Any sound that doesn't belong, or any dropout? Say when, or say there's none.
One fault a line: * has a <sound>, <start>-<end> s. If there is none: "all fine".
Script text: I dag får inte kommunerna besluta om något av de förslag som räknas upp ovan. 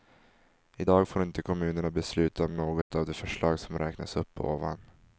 * has a dropout, 2.8-2.9 s